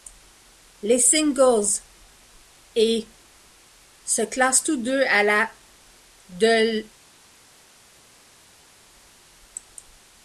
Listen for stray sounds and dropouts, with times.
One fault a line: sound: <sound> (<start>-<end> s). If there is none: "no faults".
no faults